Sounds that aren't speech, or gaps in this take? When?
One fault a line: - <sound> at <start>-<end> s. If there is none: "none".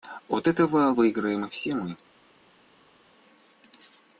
none